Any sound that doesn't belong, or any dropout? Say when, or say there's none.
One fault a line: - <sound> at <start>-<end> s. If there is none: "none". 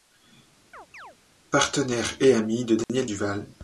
- chirp at 0.7-1.2 s
- dropout at 2.8-2.9 s